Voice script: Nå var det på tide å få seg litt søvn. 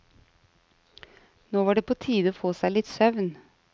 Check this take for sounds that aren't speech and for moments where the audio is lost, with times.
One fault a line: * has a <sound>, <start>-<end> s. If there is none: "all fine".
all fine